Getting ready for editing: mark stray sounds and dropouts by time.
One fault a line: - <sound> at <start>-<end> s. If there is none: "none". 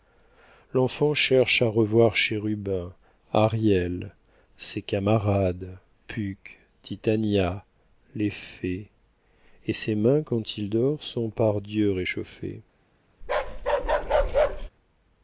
- bark at 13.2-14.7 s